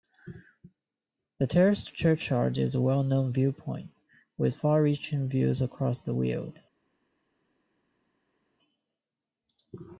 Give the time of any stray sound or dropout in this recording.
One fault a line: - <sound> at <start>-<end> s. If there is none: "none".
none